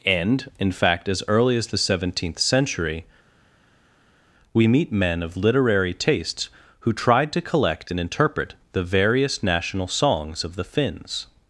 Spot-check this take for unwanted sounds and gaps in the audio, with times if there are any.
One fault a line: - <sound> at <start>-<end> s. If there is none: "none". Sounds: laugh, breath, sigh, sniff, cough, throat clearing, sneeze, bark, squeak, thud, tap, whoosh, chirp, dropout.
none